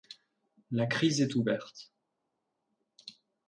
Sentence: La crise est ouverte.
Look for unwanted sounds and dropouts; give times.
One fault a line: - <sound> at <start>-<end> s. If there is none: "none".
none